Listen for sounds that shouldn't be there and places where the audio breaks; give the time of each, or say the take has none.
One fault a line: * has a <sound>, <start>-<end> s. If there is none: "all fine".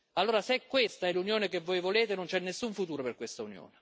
all fine